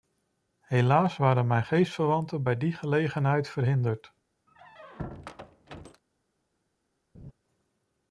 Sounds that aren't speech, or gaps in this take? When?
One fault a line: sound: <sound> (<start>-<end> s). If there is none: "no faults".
sound: squeak (4.5-6.0 s)
sound: laugh (7.1-7.3 s)